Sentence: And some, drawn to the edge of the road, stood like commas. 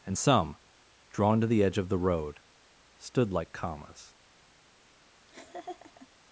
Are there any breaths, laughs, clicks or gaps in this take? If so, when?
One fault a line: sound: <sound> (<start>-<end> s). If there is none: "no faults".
sound: laugh (5.3-6.1 s)